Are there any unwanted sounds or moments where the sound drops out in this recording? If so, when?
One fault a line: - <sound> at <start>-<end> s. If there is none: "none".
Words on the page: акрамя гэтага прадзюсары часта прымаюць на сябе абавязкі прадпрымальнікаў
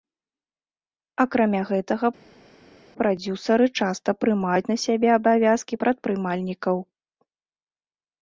none